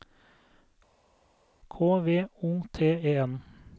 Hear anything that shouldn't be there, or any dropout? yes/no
no